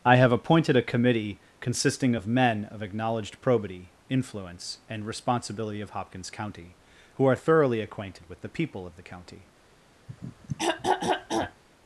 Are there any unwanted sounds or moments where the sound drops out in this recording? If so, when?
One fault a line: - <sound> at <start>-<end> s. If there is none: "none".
- throat clearing at 10.1-11.6 s